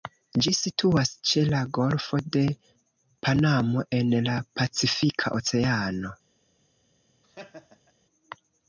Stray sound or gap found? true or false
true